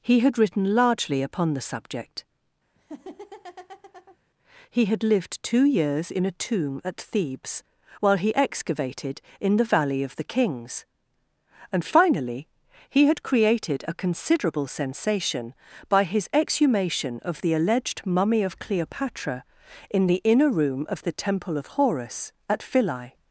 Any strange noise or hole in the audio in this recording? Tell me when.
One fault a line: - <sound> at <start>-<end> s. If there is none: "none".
- laugh at 2.7-4.2 s